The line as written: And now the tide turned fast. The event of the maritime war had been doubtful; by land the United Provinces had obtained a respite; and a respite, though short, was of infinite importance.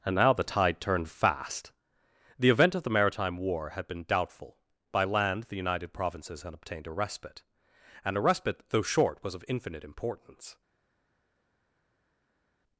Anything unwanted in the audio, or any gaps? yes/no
no